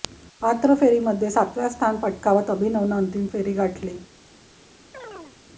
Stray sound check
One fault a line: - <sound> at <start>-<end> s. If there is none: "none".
- chirp at 4.9-5.4 s